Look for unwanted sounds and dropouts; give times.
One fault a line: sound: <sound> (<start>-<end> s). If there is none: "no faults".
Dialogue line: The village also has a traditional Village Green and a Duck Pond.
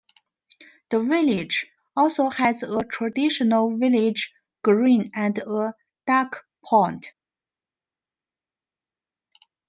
no faults